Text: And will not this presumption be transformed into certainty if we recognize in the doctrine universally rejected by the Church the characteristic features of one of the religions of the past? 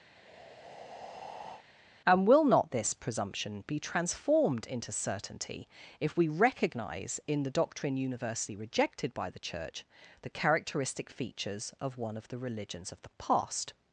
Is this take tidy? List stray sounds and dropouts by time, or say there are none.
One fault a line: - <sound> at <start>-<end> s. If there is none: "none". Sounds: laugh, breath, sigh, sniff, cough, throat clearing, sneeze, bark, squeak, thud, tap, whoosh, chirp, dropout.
- breath at 0.1-1.6 s